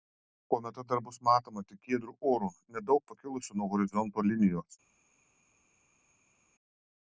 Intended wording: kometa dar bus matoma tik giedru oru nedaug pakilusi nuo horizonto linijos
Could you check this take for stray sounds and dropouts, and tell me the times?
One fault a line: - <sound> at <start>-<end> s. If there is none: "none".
none